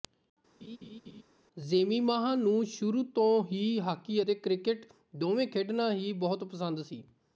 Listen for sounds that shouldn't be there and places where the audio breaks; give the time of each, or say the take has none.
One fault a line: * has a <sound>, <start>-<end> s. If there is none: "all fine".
* has a laugh, 0.6-1.2 s